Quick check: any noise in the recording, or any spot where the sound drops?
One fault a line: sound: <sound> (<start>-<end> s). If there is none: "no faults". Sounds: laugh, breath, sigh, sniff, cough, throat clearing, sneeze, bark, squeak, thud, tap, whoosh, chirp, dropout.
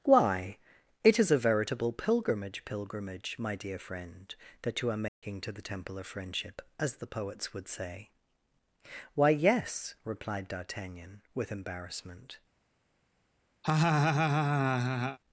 sound: dropout (5.1-5.2 s)
sound: laugh (13.6-15.2 s)